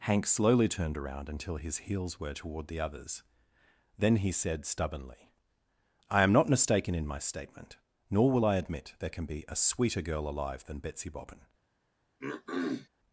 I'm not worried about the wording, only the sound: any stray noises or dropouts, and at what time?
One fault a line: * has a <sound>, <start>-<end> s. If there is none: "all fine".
* has a throat clearing, 12.2-12.9 s